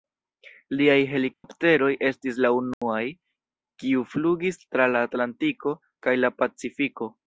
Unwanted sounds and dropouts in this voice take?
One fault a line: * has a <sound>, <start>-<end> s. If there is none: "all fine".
* has a dropout, 1.3-1.4 s
* has a dropout, 2.7-2.8 s